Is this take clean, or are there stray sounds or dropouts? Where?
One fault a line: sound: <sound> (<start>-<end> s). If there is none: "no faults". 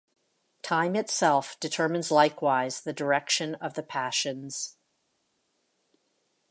no faults